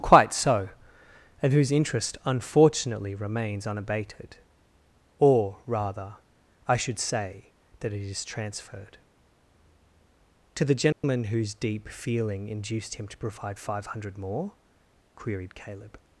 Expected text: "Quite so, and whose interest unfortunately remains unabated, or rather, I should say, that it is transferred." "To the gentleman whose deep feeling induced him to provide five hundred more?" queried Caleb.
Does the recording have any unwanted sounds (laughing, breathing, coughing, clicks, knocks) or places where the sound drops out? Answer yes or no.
yes